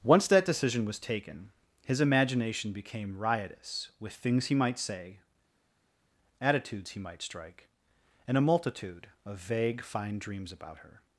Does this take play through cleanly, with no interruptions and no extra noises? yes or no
yes